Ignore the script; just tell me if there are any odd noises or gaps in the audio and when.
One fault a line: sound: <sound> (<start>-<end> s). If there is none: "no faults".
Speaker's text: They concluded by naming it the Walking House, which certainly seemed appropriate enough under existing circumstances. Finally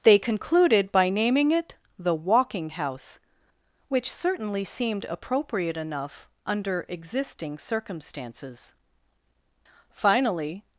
no faults